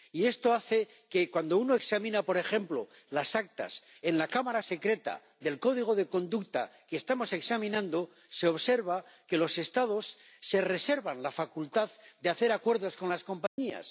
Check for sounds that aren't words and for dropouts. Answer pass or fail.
fail